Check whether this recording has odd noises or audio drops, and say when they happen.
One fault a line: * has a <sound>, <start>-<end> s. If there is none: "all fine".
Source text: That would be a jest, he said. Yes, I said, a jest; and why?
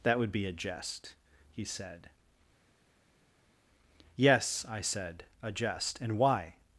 all fine